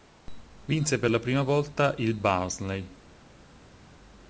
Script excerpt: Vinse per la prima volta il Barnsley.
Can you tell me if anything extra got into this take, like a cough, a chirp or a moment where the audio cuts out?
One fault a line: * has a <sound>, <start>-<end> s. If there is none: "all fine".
all fine